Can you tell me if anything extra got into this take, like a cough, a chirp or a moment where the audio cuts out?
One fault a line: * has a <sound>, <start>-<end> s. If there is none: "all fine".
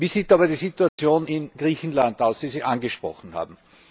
* has a dropout, 0.9-1.0 s